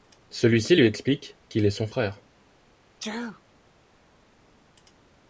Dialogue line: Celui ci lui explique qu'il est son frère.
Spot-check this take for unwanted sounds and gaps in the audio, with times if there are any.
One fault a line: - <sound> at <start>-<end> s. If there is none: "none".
- sneeze at 3.0-3.4 s